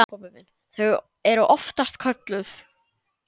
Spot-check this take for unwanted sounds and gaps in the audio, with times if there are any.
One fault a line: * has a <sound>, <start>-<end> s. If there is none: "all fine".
all fine